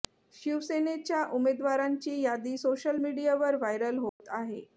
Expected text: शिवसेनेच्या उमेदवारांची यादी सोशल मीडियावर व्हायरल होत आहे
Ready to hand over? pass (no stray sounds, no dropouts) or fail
fail